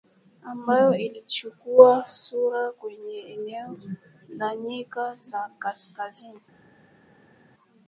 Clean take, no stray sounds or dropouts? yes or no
yes